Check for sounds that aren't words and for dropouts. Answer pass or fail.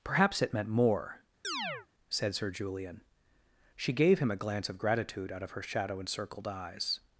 fail